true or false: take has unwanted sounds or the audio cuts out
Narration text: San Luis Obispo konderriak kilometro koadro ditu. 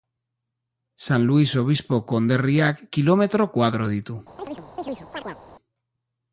true